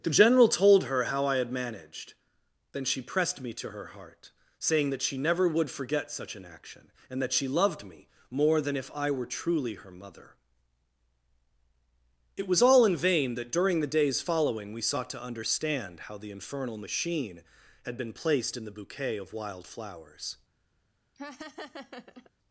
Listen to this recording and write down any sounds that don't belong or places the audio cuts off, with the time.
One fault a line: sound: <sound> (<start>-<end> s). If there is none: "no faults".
sound: laugh (21.2-22.3 s)